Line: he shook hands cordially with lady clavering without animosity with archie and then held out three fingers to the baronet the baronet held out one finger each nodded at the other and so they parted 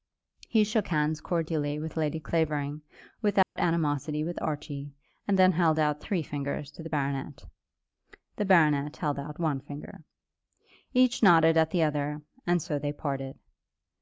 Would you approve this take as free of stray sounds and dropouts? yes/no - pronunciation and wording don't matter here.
no